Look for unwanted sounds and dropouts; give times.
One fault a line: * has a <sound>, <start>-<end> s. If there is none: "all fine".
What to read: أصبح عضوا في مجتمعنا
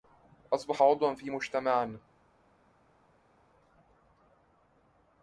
all fine